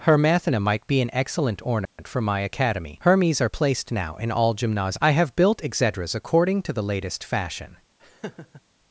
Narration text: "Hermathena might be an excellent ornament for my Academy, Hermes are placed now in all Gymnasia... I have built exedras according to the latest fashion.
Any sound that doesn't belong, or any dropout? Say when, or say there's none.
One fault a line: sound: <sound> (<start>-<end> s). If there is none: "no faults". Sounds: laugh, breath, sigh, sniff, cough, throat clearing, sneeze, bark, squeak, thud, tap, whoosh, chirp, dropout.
sound: dropout (1.9-2.0 s)
sound: laugh (8.0-8.6 s)